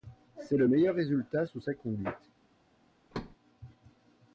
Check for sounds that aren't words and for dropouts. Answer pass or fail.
fail